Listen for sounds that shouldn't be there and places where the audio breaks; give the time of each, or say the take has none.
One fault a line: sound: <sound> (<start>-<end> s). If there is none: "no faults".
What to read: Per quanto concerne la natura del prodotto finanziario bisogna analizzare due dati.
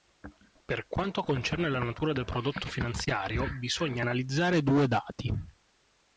no faults